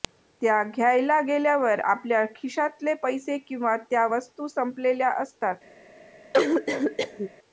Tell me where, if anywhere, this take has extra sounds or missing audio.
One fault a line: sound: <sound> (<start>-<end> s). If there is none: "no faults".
sound: cough (6.3-7.3 s)